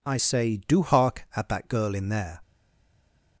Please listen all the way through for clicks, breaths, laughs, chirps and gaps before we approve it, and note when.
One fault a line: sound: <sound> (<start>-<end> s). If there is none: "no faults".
no faults